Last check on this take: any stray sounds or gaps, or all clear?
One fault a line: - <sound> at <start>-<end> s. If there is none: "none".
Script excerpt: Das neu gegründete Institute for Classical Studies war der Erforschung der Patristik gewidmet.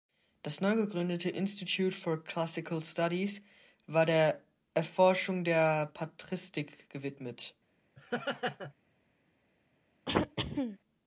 - laugh at 8.0-8.7 s
- throat clearing at 10.1-10.8 s